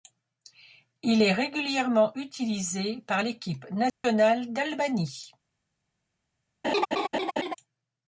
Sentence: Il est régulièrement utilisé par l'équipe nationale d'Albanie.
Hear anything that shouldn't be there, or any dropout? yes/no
yes